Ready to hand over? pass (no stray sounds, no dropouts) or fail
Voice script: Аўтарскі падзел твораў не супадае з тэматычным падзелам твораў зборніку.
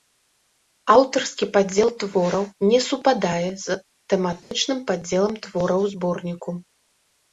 fail